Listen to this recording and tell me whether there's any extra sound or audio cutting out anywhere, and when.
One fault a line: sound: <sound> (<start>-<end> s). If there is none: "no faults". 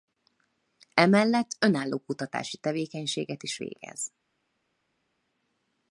no faults